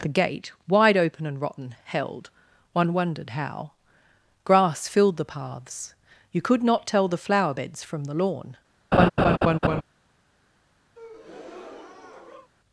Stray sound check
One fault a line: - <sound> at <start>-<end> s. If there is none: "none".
- laugh at 8.9-9.8 s
- breath at 10.9-12.5 s